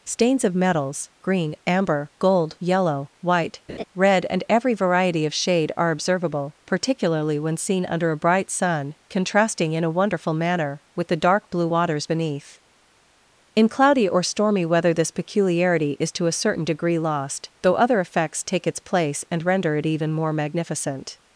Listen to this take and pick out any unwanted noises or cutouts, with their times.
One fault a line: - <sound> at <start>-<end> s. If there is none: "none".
- laugh at 3.7-3.8 s